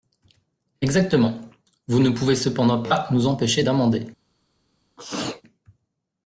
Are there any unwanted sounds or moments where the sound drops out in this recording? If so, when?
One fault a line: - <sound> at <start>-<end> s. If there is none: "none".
- sneeze at 5.0-5.4 s